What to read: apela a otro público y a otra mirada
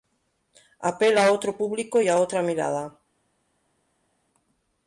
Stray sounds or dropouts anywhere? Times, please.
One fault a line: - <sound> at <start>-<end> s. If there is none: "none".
none